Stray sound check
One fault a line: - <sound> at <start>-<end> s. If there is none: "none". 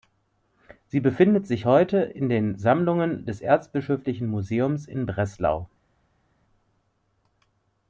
none